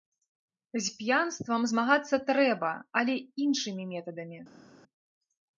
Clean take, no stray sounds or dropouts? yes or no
yes